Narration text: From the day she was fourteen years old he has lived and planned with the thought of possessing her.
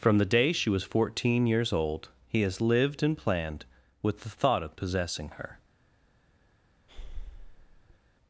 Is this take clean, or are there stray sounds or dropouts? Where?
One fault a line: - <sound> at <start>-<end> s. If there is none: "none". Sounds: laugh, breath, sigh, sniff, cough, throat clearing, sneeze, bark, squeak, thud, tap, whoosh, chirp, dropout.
- breath at 6.9-8.0 s